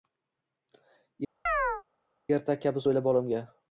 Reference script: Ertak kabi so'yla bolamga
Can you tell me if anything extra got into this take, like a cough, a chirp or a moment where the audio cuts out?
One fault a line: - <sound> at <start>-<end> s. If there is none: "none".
- chirp at 1.5-1.8 s